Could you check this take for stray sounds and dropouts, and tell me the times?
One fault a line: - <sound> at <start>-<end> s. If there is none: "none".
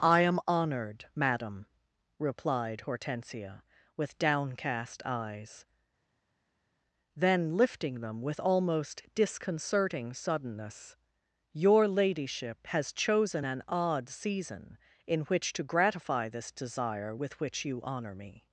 none